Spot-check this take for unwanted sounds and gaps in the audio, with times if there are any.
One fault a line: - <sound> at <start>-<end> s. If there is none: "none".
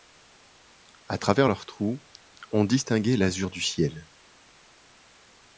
none